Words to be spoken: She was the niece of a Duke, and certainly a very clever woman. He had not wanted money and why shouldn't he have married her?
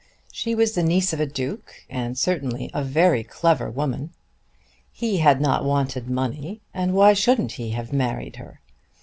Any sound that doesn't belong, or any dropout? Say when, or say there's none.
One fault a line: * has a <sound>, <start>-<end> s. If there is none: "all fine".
all fine